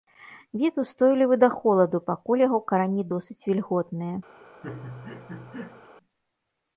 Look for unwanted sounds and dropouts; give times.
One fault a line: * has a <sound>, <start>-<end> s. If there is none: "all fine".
* has a laugh, 4.6-5.9 s